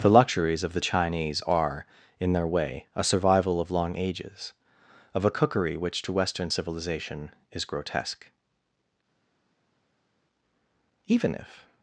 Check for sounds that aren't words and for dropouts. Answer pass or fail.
pass